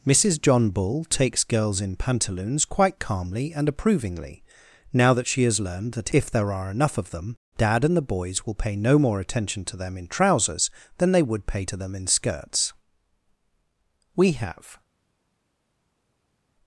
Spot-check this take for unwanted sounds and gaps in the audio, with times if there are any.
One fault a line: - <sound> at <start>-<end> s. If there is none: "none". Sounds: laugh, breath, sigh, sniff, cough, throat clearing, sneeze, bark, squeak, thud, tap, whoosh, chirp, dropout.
none